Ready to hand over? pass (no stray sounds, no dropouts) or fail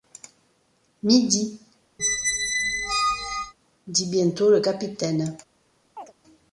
fail